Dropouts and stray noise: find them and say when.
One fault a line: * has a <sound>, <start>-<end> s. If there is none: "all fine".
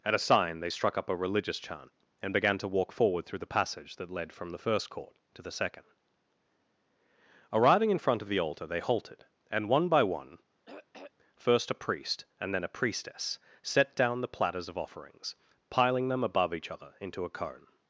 * has a throat clearing, 10.7-11.1 s